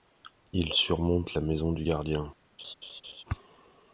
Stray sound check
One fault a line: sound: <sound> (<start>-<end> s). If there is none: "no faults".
sound: laugh (2.6-3.2 s)